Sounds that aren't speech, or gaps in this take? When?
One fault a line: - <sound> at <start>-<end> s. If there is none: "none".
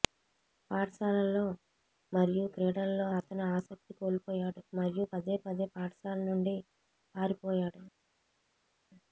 none